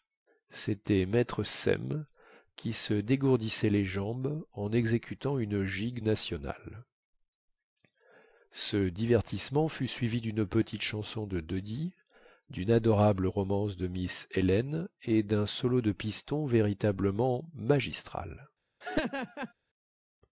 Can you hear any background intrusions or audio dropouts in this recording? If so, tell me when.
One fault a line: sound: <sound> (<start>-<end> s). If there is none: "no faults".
sound: laugh (18.8-19.5 s)